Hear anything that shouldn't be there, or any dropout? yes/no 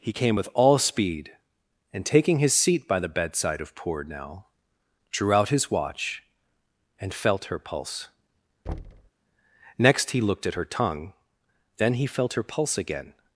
yes